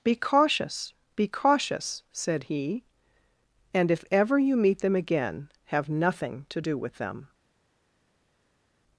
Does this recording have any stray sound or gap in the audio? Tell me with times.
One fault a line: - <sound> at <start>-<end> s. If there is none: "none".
none